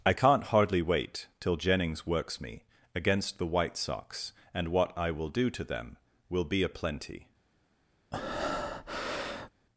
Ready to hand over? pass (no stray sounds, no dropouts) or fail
fail